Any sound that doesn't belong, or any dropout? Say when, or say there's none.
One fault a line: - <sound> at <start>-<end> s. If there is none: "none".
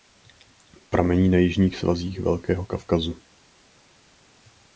none